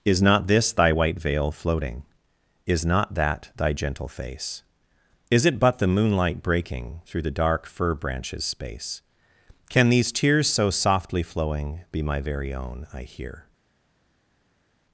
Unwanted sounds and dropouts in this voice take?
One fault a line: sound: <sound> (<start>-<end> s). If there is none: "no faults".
no faults